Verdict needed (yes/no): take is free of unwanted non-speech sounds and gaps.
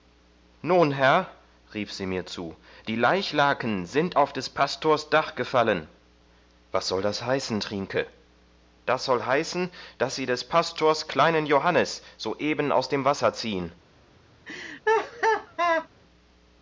no